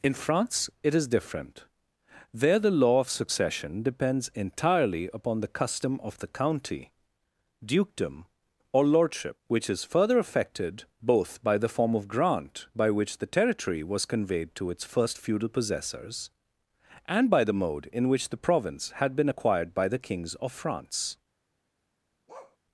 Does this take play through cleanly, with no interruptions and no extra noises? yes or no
no